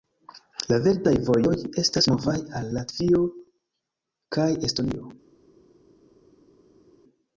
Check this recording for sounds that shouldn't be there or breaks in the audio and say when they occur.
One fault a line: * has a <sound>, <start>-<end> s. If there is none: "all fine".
all fine